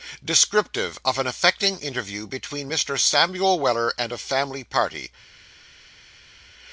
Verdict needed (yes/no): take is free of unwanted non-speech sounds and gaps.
yes